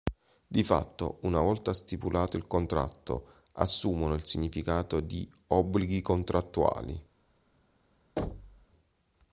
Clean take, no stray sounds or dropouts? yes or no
no